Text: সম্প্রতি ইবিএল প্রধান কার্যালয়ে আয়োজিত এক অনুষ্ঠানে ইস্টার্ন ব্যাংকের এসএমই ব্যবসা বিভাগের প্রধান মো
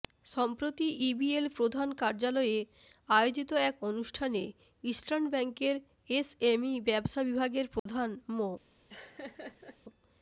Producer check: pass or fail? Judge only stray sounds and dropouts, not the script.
fail